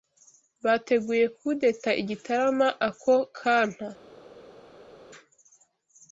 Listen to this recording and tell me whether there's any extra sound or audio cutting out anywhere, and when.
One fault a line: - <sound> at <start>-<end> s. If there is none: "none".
none